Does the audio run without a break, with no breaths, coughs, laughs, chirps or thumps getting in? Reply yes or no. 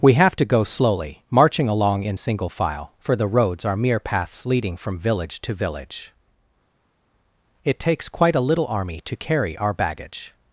yes